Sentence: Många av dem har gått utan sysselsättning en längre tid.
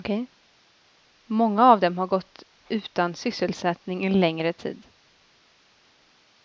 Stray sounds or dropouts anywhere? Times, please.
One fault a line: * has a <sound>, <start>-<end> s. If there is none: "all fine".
all fine